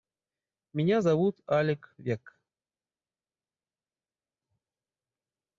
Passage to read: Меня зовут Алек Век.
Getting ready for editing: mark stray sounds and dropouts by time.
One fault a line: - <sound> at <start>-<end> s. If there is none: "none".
none